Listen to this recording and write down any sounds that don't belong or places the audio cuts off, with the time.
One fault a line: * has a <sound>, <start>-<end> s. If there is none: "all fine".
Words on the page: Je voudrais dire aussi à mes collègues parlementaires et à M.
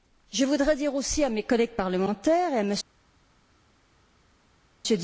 all fine